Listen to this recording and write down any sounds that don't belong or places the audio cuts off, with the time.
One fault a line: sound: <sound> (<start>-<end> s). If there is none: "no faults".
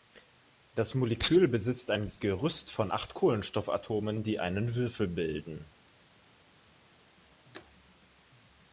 no faults